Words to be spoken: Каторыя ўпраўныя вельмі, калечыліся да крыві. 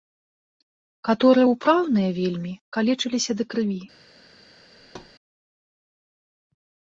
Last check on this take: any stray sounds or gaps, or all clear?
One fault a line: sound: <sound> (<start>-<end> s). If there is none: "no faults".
sound: thud (4.8-5.1 s)